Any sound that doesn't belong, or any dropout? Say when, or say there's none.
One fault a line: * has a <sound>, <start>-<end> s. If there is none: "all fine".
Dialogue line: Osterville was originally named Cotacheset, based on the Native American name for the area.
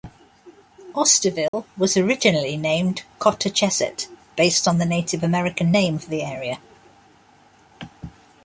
* has a dropout, 1.5-1.5 s